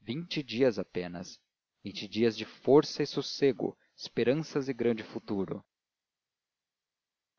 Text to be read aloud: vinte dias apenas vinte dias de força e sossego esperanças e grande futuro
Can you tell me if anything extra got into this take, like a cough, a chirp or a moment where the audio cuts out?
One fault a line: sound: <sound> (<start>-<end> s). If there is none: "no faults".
no faults